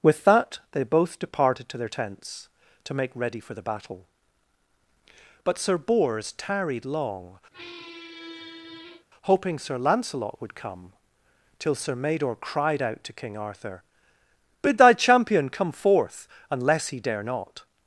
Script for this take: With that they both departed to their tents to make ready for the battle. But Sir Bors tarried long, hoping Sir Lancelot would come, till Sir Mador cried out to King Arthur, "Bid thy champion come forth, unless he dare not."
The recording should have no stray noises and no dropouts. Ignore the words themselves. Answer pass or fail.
fail